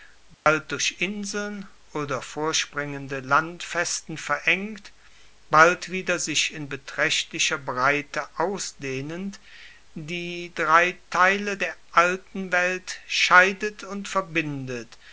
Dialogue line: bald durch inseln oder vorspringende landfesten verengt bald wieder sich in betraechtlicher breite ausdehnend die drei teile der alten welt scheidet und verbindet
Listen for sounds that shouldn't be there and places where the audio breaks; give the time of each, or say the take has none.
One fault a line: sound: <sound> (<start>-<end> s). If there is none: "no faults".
sound: dropout (0.3-0.5 s)